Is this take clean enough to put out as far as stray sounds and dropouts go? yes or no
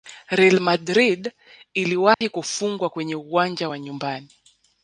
no